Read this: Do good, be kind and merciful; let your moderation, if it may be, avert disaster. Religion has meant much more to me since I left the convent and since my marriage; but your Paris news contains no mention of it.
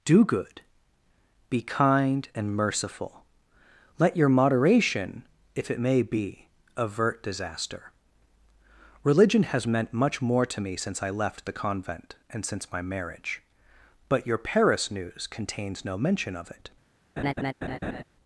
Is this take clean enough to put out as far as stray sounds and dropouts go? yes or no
no